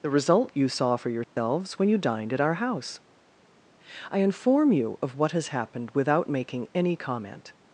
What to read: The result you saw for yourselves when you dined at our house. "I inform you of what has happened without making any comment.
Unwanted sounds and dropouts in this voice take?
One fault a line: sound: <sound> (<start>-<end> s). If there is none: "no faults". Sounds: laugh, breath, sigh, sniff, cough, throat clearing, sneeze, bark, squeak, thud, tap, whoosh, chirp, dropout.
sound: dropout (1.2-1.4 s)